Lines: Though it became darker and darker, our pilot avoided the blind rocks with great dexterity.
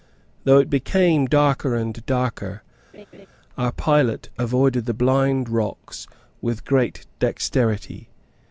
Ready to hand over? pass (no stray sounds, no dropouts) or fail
fail